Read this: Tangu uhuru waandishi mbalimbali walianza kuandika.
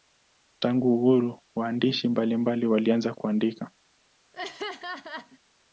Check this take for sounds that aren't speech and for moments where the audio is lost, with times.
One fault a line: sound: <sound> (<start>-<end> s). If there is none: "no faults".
sound: laugh (4.3-5.4 s)